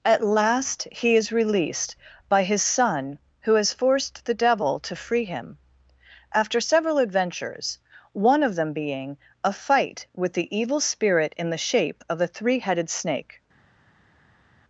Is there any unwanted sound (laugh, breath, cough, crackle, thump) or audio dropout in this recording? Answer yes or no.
no